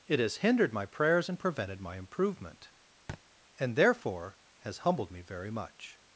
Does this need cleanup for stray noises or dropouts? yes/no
yes